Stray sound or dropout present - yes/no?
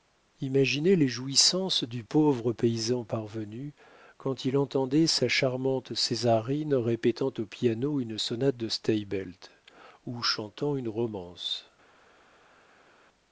no